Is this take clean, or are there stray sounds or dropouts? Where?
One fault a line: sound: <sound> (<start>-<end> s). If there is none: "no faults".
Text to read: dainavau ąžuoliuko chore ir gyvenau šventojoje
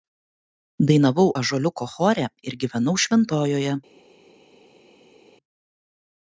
no faults